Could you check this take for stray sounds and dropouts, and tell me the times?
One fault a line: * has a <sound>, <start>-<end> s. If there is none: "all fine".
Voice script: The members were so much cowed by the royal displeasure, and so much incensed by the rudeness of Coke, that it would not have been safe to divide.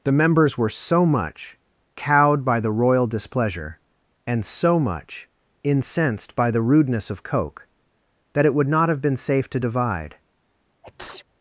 * has a sneeze, 10.8-11.2 s